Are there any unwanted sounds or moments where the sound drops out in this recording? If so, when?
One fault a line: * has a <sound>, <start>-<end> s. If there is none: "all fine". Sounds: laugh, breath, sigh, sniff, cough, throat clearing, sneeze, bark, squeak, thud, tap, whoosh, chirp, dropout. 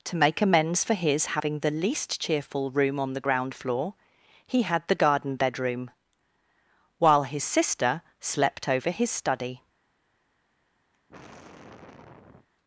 * has a sigh, 10.9-12.5 s